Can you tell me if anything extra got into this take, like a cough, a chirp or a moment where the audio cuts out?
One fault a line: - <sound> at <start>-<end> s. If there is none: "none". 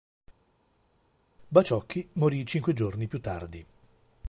none